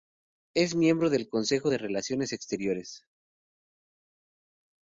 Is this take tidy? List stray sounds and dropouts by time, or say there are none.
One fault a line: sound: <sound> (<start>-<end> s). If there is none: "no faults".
no faults